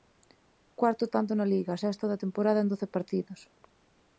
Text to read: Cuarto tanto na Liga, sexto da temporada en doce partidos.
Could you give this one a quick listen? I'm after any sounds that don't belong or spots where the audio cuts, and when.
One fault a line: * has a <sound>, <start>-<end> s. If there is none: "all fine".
all fine